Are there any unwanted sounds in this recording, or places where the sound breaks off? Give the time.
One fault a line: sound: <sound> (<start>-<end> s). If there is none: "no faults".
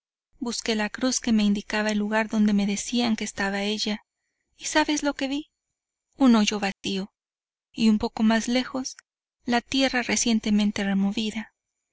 sound: dropout (6.7-6.8 s)